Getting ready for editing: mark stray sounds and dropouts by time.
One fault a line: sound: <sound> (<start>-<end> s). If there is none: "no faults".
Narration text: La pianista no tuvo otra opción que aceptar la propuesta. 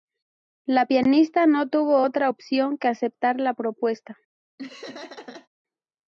sound: laugh (4.6-5.5 s)